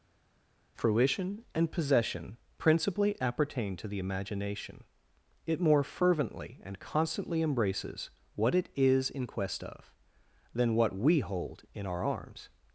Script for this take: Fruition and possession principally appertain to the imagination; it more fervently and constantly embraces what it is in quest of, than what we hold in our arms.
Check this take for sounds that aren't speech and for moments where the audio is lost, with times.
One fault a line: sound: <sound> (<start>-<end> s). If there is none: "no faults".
no faults